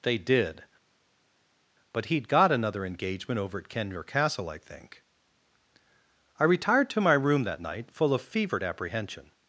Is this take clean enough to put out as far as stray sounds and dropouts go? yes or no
yes